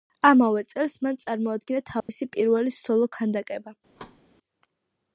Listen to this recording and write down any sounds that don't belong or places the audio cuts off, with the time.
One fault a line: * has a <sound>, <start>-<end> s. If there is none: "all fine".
* has a dropout, 2.0-2.1 s
* has a thud, 4.0-4.2 s